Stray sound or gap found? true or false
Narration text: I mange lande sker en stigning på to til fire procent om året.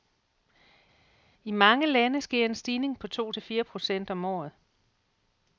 false